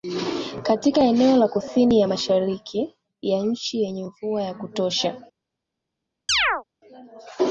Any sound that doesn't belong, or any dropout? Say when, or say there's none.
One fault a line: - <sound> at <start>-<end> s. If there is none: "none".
- chirp at 6.3-6.6 s